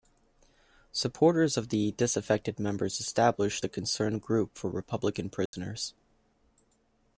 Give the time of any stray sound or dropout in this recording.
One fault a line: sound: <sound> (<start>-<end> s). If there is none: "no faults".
sound: dropout (5.5-5.5 s)